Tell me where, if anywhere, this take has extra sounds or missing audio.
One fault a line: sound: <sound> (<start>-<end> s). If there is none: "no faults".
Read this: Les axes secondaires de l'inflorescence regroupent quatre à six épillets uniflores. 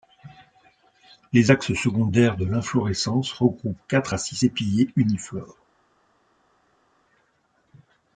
no faults